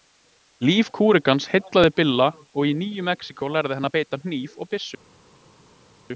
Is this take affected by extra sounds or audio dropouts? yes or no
no